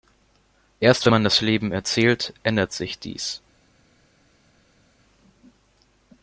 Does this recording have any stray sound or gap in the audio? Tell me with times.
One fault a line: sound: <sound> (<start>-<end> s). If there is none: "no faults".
no faults